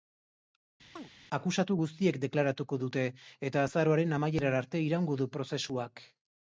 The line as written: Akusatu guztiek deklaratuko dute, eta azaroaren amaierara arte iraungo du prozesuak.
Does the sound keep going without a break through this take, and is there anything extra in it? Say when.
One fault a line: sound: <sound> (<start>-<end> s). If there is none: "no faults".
sound: chirp (1.0-1.1 s)